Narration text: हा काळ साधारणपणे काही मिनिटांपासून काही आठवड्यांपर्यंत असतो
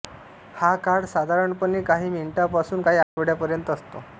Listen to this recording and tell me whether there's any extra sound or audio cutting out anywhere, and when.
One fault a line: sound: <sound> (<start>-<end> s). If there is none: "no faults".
sound: dropout (3.0-3.2 s)